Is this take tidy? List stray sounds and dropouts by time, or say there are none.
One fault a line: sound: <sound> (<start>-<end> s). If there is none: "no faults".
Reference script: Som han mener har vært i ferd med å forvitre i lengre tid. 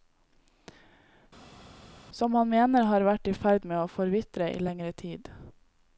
no faults